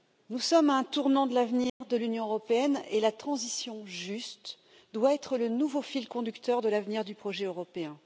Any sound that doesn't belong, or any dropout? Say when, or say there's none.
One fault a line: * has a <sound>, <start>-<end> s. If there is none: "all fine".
* has a dropout, 1.7-1.8 s